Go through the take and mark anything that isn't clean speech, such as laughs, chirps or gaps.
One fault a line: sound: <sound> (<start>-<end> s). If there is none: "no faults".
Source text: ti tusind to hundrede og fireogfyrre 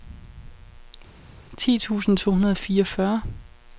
no faults